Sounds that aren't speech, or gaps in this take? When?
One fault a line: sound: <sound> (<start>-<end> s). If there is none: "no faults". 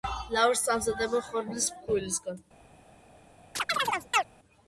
sound: chirp (3.6-4.2 s)